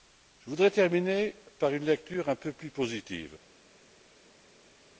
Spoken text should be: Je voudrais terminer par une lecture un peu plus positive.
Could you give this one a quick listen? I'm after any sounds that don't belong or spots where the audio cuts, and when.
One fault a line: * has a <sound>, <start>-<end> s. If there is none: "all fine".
all fine